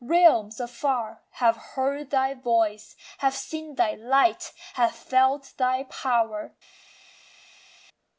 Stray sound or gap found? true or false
false